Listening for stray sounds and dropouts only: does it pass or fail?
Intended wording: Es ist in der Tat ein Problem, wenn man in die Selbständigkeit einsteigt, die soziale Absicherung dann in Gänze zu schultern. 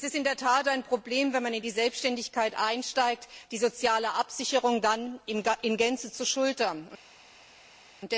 pass